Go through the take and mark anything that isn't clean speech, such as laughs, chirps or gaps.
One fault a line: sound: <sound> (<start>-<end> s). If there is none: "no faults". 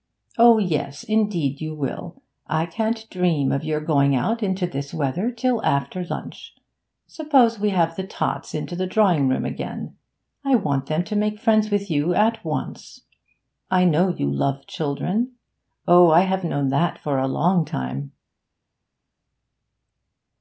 no faults